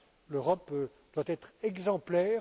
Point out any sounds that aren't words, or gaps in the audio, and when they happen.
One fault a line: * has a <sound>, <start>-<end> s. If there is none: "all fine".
all fine